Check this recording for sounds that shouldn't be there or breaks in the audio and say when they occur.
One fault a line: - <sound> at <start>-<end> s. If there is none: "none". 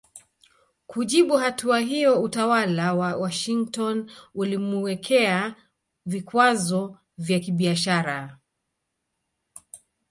none